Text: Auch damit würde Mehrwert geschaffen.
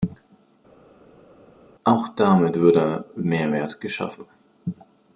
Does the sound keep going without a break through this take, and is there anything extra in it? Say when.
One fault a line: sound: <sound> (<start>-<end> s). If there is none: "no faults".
no faults